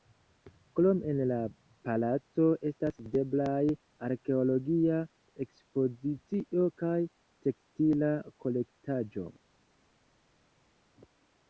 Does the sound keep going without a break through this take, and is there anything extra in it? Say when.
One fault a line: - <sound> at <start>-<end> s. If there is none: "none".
none